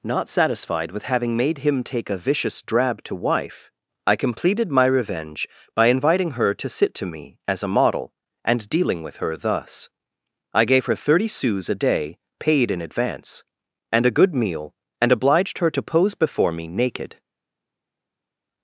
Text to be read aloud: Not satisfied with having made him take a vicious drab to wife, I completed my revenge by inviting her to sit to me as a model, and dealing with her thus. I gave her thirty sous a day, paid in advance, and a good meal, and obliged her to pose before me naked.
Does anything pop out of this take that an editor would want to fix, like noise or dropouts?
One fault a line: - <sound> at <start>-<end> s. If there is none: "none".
none